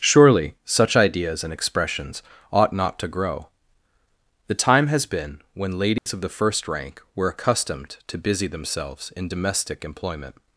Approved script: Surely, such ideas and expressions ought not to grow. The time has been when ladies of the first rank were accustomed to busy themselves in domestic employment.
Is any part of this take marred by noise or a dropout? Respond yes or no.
yes